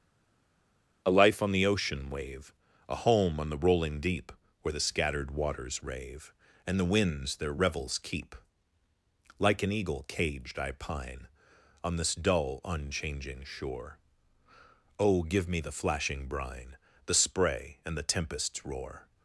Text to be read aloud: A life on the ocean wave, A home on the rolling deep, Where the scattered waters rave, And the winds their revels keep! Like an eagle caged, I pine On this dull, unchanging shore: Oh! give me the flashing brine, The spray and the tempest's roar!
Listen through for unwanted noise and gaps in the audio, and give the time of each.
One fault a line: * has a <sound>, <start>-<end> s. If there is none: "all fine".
all fine